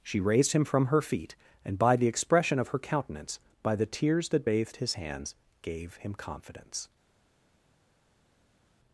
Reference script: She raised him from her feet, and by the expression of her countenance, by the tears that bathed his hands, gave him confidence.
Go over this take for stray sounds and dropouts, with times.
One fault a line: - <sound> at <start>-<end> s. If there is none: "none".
none